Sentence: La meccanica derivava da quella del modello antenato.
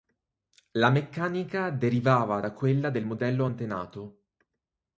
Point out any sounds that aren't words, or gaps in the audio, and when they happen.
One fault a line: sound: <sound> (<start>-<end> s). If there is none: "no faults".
no faults